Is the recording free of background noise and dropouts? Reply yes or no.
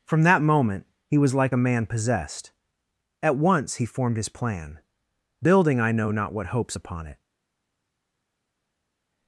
yes